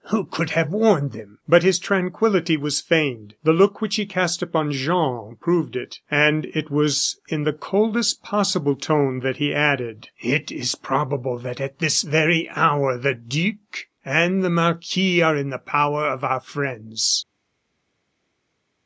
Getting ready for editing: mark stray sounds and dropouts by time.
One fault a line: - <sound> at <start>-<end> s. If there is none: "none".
none